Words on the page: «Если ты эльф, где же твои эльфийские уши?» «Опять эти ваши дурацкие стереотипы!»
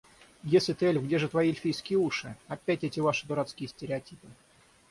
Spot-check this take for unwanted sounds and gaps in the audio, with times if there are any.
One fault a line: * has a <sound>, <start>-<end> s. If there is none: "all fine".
all fine